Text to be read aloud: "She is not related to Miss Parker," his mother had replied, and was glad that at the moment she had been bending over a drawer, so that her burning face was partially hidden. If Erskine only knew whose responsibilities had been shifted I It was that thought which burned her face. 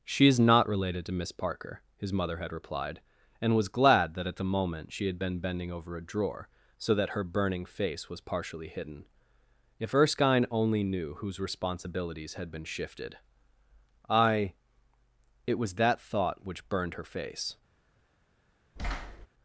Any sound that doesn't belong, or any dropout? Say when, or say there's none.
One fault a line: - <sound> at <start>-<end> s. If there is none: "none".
- thud at 18.8-19.3 s